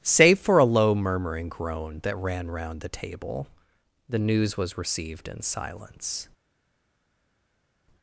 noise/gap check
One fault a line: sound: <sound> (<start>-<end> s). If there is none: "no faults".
no faults